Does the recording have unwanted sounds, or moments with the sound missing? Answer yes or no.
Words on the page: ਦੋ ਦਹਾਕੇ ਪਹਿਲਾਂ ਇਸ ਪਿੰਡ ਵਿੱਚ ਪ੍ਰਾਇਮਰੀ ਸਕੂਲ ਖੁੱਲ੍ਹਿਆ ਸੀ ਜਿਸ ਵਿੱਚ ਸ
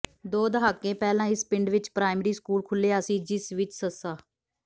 no